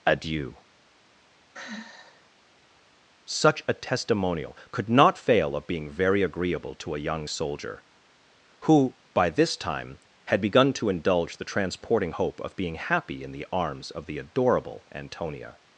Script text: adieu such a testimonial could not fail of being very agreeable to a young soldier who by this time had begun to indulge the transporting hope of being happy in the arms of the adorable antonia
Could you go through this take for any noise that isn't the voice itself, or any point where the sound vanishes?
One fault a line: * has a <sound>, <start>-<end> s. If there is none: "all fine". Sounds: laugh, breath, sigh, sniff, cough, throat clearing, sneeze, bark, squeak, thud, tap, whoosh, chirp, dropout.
* has a sigh, 1.5-2.3 s